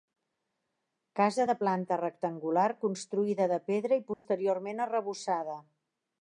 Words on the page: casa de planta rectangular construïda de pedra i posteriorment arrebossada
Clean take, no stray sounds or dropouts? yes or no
no